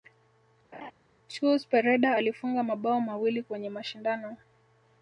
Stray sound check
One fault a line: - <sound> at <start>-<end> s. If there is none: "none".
- laugh at 0.7-0.9 s